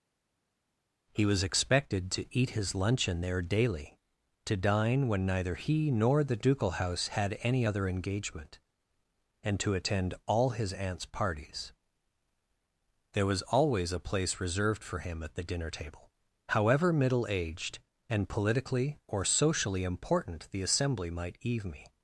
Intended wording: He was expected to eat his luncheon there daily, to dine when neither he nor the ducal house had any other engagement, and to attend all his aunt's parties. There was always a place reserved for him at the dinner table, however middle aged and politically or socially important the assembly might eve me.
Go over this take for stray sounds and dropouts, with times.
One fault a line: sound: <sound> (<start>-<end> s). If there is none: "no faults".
no faults